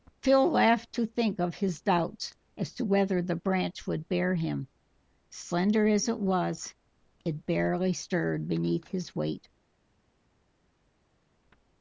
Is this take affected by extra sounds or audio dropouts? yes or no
no